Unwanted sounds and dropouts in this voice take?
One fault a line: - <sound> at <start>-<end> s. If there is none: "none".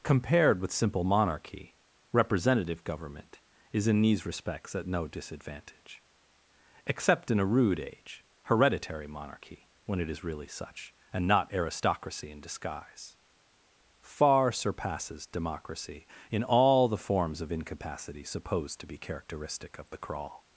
none